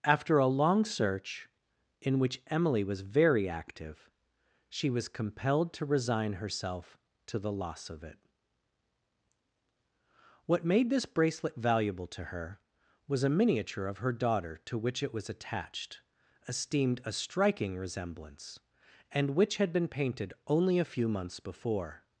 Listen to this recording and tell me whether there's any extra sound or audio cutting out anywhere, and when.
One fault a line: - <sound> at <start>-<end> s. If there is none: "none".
none